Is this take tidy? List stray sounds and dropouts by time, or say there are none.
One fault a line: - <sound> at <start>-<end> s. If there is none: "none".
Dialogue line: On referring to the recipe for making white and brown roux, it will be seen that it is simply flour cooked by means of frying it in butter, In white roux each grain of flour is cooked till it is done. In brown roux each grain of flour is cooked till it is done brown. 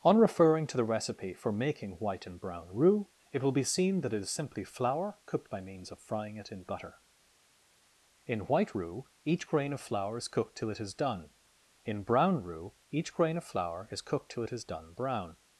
none